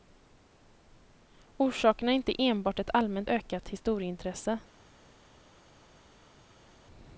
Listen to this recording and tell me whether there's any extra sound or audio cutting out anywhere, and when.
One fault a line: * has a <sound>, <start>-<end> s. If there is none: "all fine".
all fine